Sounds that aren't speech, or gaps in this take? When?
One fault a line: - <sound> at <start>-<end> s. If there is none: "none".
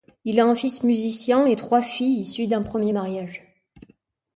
none